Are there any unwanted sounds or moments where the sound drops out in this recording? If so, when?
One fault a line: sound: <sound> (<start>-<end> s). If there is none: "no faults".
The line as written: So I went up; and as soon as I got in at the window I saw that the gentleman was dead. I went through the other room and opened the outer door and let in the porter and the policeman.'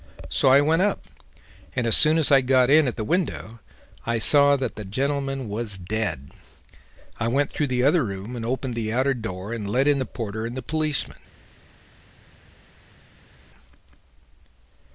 no faults